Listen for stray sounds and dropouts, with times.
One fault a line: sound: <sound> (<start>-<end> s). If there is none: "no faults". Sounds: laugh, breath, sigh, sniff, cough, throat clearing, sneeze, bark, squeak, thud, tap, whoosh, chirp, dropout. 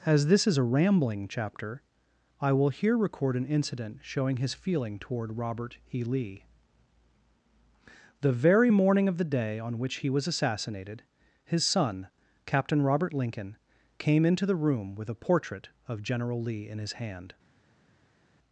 no faults